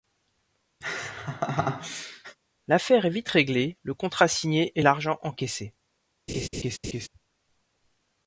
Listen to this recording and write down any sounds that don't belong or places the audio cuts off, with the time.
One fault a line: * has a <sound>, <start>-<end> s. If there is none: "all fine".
* has a laugh, 0.8-2.4 s
* has a laugh, 6.3-7.1 s